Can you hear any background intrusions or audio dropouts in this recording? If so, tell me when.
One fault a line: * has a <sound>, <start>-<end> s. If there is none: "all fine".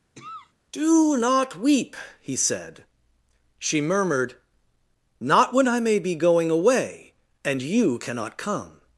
* has a cough, 0.2-0.5 s